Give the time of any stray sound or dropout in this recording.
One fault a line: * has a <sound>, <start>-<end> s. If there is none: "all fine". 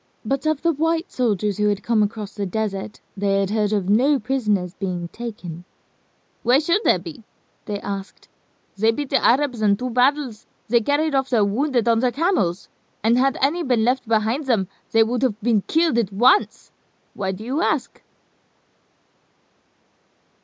all fine